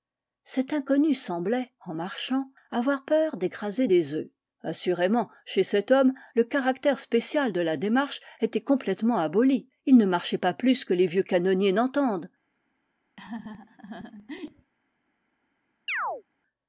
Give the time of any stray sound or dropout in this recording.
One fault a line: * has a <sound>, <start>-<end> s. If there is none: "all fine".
* has a laugh, 13.2-14.7 s
* has a chirp, 15.9-16.2 s